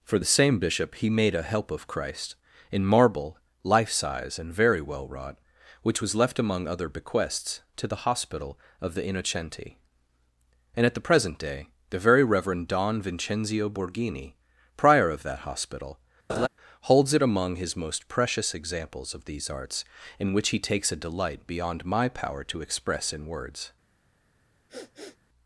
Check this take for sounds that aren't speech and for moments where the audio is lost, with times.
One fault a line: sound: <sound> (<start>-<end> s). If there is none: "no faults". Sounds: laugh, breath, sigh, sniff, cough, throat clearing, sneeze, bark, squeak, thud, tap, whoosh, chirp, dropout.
sound: laugh (16.3-16.5 s)
sound: sniff (24.7-25.2 s)